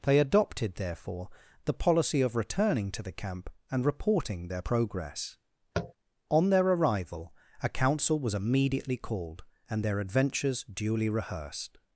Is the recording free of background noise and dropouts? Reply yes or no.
no